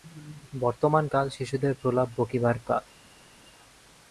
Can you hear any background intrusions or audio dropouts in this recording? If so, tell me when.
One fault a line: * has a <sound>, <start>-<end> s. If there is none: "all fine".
all fine